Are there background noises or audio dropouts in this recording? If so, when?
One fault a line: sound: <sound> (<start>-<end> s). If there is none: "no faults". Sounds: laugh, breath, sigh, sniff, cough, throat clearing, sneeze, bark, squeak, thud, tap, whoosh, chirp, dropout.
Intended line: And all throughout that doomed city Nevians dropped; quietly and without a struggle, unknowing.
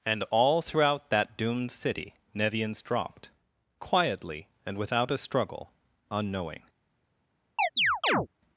sound: chirp (7.6-8.3 s)